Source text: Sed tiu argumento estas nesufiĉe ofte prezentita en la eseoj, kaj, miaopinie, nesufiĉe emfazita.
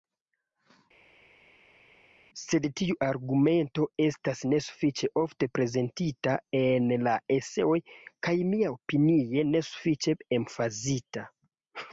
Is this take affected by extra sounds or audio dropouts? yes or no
no